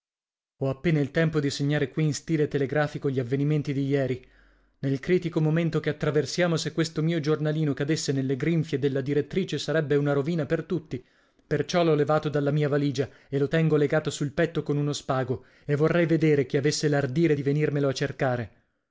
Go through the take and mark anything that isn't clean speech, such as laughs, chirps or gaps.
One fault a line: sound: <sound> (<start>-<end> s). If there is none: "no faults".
no faults